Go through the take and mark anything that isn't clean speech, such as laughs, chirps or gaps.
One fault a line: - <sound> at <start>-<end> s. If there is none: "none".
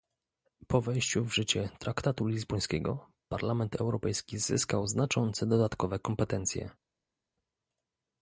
none